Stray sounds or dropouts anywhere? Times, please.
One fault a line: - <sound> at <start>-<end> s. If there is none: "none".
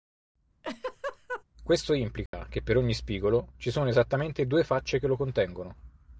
- laugh at 0.6-1.4 s
- dropout at 2.3-2.3 s